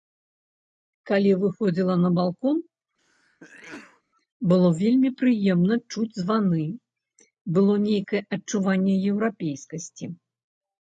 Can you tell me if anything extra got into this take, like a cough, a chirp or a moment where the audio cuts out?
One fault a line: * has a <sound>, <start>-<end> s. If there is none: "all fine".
* has a sneeze, 3.0-4.0 s